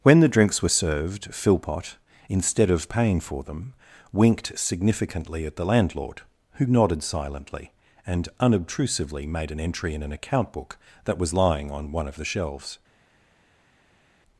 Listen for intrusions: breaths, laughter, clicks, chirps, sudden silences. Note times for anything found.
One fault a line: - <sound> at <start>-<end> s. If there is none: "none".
none